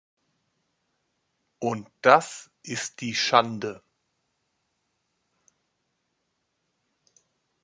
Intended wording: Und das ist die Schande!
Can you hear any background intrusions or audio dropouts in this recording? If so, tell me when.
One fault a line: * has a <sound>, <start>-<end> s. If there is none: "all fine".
all fine